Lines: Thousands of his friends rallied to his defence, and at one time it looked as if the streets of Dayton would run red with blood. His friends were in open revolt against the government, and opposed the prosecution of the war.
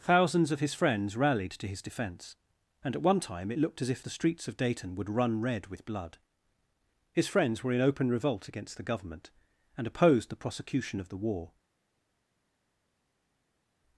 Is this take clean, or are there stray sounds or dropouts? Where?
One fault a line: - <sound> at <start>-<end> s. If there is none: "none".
none